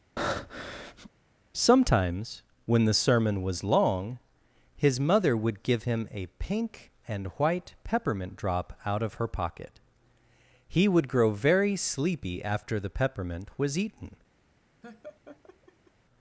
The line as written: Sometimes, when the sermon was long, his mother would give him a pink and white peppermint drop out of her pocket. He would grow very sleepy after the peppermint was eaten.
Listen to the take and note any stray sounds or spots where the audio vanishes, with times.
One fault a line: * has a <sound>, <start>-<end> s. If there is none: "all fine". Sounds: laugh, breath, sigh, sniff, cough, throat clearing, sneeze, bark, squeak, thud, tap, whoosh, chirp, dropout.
* has a breath, 0.2-1.1 s
* has a laugh, 14.8-15.9 s